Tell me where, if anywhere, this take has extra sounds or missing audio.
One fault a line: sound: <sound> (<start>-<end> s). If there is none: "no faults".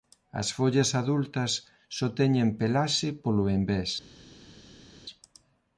no faults